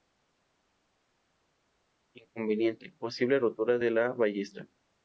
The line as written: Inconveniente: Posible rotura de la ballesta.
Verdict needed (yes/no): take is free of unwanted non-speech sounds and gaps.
yes